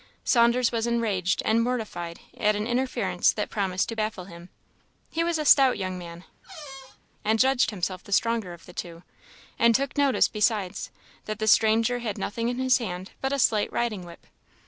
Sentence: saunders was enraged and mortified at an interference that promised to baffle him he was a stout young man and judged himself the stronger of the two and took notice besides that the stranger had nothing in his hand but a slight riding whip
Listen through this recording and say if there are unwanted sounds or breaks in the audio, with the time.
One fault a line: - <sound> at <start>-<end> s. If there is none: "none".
- squeak at 6.4-7.0 s